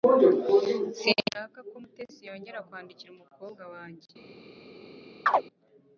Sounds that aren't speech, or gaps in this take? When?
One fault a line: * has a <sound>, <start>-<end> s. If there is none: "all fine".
* has a chirp, 5.3-5.4 s